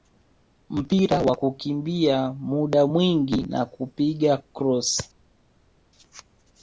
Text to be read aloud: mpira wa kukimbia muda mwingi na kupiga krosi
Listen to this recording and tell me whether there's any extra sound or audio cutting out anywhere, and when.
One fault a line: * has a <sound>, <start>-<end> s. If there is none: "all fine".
all fine